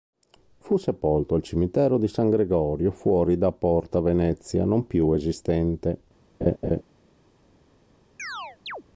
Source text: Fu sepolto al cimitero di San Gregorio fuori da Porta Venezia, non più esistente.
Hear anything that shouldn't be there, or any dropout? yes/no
yes